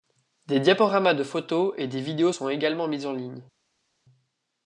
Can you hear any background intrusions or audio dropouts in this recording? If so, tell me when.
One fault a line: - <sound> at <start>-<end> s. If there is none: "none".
none